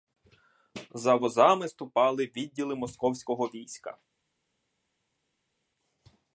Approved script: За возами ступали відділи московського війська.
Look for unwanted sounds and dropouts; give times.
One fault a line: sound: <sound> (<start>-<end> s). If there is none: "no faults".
no faults